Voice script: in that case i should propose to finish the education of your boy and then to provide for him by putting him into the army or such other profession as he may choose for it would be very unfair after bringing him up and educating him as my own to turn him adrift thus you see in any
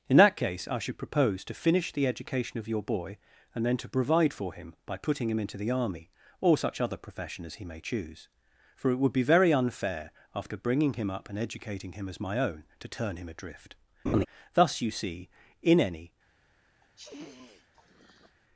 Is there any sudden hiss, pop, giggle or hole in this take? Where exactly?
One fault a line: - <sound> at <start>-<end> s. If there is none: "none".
- laugh at 14.1-14.3 s
- sniff at 16.8-18.4 s